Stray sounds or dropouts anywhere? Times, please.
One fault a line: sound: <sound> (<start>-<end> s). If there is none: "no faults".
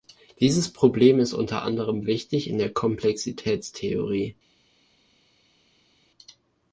no faults